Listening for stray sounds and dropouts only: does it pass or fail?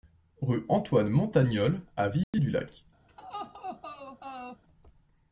fail